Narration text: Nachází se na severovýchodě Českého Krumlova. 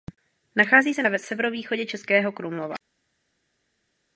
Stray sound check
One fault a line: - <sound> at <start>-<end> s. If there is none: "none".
none